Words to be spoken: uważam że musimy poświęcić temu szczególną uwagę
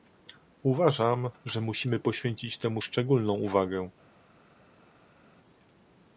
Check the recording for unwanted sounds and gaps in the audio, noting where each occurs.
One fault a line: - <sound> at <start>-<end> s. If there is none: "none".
none